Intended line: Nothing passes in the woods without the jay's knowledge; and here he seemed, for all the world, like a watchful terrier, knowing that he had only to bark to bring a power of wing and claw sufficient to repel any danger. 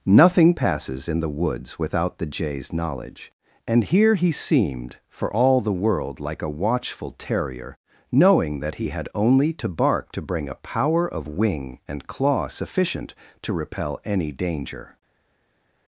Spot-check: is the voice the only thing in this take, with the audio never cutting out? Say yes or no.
yes